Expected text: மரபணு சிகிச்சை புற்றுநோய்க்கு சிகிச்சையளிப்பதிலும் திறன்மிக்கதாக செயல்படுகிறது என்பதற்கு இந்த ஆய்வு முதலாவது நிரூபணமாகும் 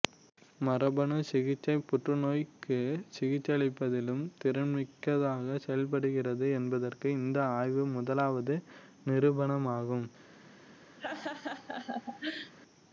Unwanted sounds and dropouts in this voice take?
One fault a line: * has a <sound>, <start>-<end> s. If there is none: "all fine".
* has a laugh, 11.0-12.5 s